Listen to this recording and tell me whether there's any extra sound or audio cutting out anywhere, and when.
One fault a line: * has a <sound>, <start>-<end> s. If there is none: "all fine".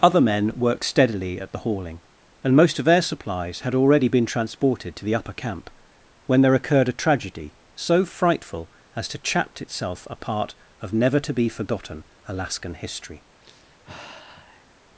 * has a sigh, 13.4-14.7 s